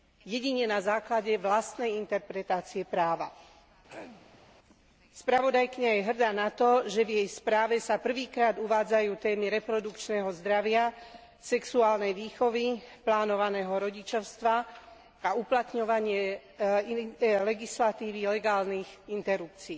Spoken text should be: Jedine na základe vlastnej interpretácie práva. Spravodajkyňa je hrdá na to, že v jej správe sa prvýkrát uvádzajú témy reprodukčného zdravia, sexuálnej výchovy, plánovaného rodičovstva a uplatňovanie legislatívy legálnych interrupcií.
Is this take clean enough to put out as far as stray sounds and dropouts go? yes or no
no